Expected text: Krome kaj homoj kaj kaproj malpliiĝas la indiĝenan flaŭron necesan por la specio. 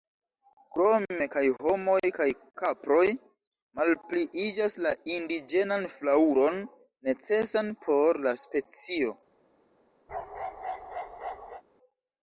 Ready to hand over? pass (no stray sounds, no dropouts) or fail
fail